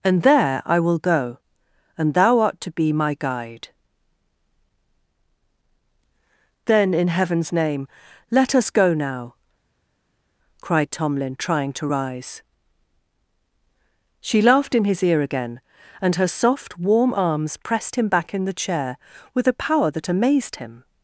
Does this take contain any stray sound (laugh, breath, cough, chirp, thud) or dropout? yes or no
no